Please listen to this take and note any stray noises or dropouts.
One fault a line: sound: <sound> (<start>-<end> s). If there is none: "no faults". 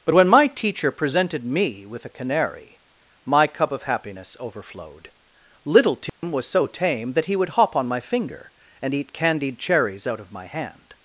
sound: dropout (6.1-6.2 s)